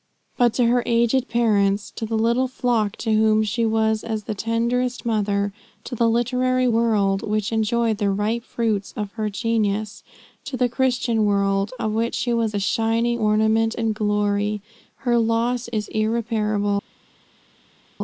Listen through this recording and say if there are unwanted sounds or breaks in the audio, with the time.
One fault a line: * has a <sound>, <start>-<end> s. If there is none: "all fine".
all fine